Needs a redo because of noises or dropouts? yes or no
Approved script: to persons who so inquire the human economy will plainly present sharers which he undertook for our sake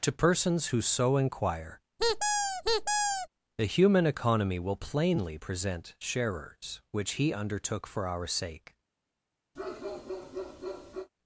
yes